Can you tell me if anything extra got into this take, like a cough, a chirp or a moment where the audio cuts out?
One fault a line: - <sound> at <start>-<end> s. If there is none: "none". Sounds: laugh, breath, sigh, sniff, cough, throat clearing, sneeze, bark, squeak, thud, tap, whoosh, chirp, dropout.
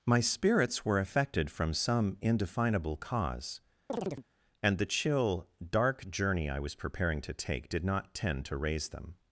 - chirp at 3.9-4.3 s